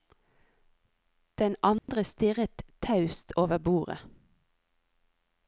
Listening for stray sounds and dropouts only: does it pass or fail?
fail